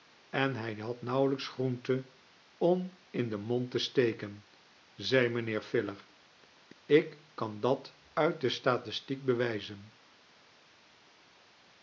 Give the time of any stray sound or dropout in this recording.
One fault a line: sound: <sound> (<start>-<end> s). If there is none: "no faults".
no faults